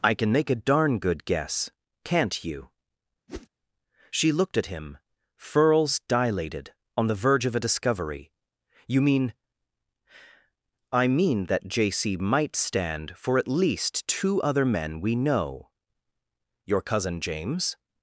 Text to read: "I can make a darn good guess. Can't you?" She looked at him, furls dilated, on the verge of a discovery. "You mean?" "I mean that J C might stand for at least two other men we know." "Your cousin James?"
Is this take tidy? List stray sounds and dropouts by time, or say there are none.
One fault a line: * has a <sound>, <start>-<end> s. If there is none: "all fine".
* has a whoosh, 3.3-3.5 s